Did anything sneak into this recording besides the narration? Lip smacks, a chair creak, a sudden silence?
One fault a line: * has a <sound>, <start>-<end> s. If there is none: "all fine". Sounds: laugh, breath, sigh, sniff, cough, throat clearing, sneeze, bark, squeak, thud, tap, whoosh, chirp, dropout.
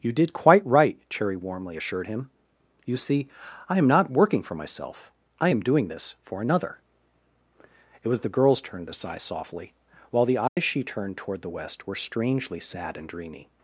* has a dropout, 10.5-10.6 s